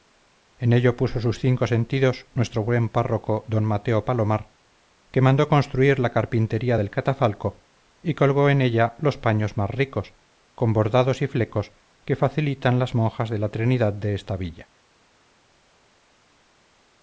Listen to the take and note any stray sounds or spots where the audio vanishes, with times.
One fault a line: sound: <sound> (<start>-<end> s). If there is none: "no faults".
no faults